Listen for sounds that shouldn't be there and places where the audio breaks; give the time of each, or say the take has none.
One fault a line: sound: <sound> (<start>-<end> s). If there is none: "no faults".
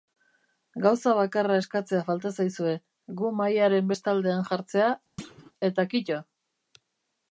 sound: thud (5.2-5.5 s)